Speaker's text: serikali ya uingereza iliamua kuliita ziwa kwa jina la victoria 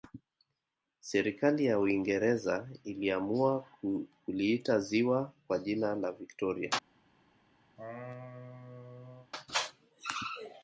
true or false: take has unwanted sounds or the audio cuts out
true